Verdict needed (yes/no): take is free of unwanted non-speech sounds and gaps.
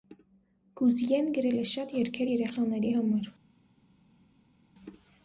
yes